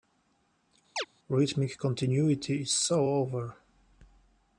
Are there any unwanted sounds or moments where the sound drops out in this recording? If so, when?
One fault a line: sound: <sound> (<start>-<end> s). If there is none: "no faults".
sound: chirp (1.0-1.1 s)